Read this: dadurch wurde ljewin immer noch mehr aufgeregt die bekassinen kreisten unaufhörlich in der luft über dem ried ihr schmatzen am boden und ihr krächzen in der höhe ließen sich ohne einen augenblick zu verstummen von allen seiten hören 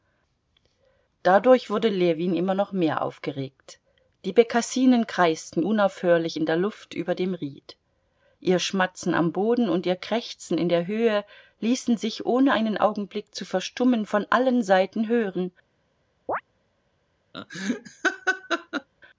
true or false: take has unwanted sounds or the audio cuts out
true